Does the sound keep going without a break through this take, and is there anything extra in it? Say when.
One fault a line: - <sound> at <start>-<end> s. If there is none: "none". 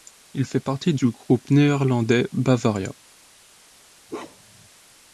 - bark at 4.1-4.7 s